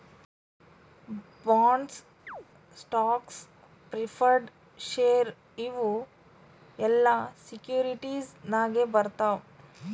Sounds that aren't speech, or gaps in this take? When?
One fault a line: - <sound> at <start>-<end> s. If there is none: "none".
- chirp at 2.3-2.5 s